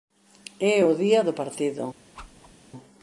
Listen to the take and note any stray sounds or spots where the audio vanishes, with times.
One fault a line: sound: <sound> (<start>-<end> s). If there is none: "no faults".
sound: whoosh (2.1-2.5 s)